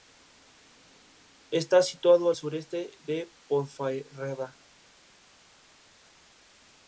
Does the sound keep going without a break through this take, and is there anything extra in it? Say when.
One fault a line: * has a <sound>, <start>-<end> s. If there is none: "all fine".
all fine